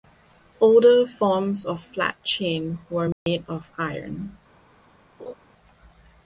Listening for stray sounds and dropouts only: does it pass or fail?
fail